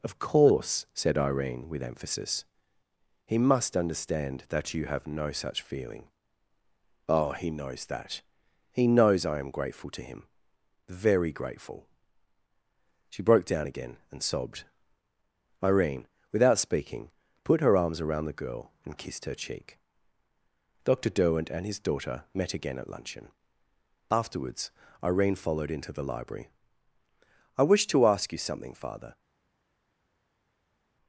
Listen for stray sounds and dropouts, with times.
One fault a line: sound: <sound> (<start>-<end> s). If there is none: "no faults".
no faults